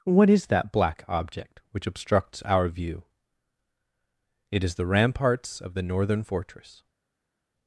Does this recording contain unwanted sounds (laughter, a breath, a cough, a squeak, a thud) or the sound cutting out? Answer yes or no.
no